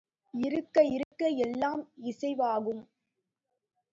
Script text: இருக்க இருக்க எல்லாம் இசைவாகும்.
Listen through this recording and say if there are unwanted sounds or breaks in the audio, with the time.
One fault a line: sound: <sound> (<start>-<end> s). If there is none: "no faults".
sound: dropout (1.0-1.1 s)